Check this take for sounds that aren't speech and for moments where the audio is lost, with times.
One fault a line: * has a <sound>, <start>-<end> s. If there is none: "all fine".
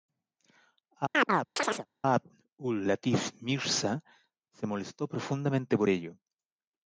* has a chirp, 1.1-1.9 s